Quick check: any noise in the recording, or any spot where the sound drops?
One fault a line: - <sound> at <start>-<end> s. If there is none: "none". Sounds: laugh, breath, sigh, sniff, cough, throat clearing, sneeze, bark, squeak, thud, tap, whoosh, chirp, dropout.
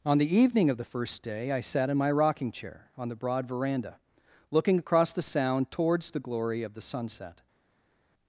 none